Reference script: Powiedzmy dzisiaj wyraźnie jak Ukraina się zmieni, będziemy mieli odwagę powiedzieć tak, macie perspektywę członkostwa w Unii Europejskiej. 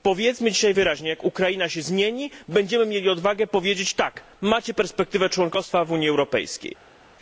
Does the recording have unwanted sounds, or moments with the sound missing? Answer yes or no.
no